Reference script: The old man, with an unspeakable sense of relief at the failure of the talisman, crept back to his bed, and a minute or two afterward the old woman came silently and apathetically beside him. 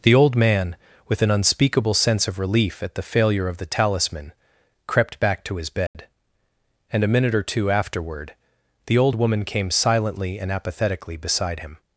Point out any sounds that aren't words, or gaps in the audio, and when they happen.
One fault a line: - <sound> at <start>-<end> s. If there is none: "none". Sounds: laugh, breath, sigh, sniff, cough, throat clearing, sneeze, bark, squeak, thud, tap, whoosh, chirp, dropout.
- dropout at 5.9-5.9 s